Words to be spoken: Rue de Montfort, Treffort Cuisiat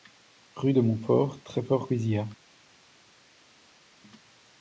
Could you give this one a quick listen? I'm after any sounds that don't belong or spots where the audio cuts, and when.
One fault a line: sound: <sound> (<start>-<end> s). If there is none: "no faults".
no faults